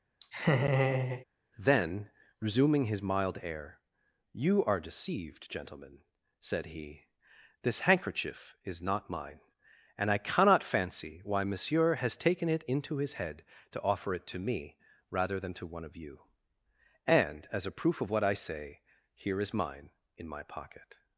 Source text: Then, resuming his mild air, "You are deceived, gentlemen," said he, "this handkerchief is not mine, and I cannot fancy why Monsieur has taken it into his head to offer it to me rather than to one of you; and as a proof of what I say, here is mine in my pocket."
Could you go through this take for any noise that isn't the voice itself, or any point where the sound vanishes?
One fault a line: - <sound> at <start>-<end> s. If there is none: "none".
- laugh at 0.2-1.2 s